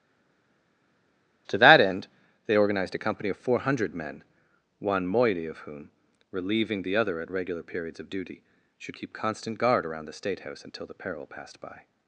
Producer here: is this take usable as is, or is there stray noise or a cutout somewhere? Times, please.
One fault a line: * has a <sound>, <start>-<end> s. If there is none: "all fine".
all fine